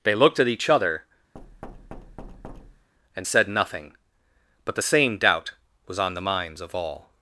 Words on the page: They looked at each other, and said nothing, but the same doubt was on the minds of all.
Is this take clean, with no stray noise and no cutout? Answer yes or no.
no